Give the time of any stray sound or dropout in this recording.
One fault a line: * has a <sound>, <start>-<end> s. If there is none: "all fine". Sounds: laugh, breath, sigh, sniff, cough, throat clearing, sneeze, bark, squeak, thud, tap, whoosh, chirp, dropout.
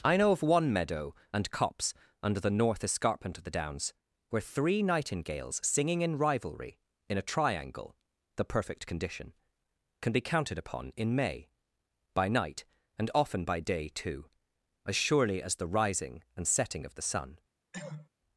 * has a cough, 17.7-18.1 s